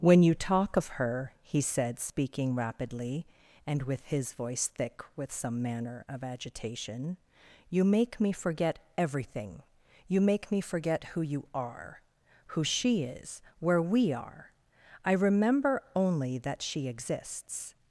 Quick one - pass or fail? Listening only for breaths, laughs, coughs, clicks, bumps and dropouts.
pass